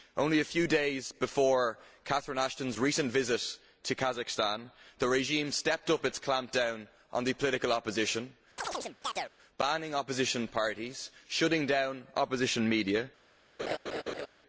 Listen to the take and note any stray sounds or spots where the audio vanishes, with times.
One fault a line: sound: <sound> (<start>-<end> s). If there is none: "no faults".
sound: chirp (8.6-9.3 s)
sound: laugh (13.6-14.3 s)